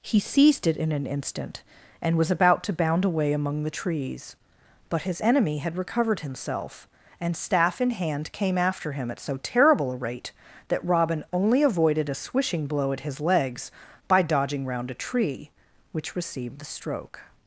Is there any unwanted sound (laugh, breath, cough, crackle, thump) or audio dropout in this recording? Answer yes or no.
no